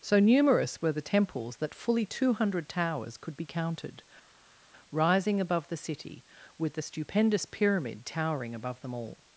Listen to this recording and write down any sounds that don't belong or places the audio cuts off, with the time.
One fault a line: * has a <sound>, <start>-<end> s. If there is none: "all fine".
all fine